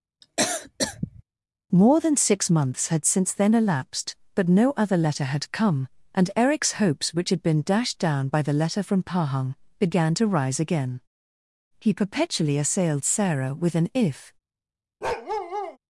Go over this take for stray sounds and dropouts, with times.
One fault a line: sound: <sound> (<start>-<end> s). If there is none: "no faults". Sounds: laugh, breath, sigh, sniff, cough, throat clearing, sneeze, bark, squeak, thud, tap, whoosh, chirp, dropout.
sound: cough (0.2-1.2 s)
sound: bark (15.0-15.8 s)